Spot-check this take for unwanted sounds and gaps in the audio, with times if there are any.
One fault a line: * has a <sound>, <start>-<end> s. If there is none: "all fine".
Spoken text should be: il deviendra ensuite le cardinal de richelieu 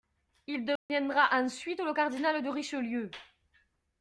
* has a dropout, 0.8-0.9 s